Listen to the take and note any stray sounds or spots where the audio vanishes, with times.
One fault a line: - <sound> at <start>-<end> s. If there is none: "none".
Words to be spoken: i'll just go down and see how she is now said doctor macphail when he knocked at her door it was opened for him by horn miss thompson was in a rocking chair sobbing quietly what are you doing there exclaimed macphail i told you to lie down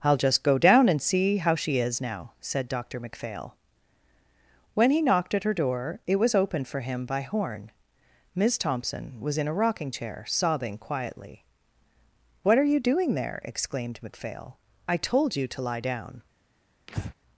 - breath at 16.9-17.1 s